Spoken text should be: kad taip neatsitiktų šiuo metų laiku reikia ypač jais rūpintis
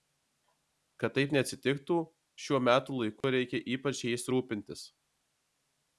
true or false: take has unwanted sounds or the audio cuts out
true